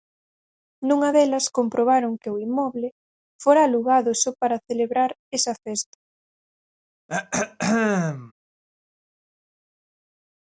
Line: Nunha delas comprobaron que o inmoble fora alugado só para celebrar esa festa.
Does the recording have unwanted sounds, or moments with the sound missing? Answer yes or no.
yes